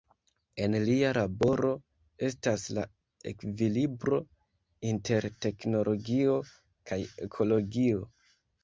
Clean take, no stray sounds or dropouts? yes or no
yes